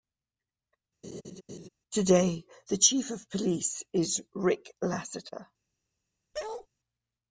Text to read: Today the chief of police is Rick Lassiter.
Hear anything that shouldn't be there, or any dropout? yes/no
yes